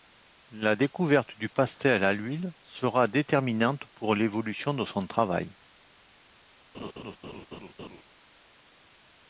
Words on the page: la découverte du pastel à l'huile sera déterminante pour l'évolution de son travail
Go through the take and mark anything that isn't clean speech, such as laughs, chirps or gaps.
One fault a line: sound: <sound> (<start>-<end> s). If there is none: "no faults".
sound: laugh (6.7-8.0 s)